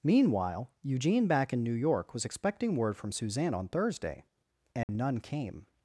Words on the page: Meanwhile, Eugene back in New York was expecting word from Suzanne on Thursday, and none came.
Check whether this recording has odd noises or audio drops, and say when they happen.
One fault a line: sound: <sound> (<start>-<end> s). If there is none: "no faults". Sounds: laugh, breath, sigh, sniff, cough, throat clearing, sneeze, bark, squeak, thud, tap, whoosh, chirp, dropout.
sound: dropout (4.8-4.9 s)